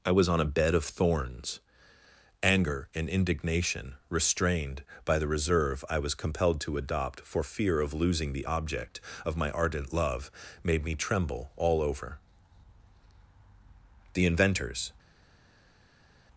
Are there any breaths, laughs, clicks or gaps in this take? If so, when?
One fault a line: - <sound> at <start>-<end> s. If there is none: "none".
none